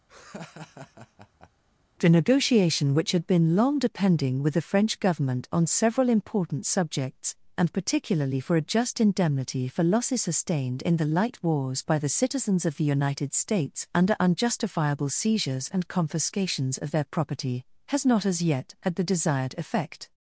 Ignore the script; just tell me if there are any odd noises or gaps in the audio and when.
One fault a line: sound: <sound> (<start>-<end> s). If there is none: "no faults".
sound: laugh (0.1-1.5 s)